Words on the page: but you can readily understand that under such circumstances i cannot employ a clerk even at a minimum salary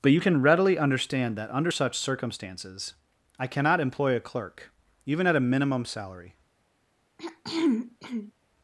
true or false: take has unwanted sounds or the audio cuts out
true